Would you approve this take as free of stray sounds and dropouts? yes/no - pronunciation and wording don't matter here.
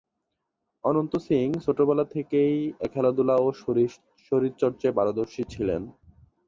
yes